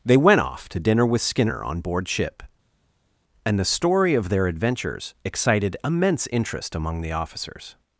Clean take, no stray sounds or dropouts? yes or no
yes